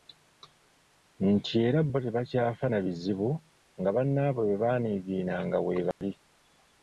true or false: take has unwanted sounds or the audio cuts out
true